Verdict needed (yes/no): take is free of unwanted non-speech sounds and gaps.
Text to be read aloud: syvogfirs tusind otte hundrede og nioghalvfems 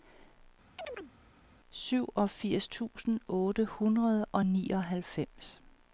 no